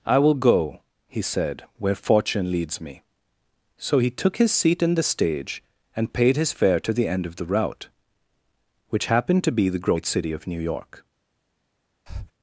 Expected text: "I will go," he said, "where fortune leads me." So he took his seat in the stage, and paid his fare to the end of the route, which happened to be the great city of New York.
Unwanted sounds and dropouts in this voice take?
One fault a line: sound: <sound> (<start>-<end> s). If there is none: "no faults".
sound: breath (12.1-12.3 s)